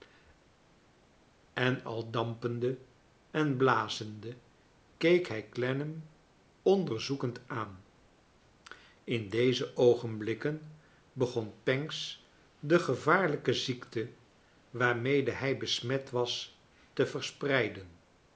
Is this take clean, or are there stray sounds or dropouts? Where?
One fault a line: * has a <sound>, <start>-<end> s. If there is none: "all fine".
all fine